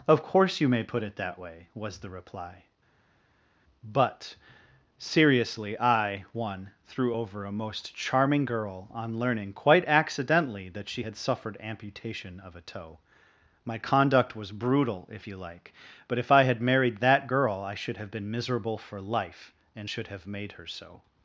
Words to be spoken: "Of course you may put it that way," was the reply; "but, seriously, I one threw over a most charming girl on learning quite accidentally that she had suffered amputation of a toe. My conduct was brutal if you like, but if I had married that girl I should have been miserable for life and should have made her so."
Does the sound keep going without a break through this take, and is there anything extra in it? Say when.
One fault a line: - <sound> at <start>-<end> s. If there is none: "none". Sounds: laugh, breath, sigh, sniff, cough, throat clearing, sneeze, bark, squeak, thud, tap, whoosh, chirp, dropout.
none